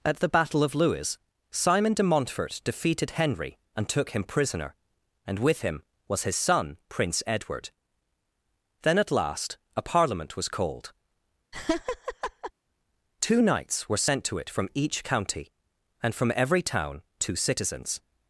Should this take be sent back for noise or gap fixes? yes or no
yes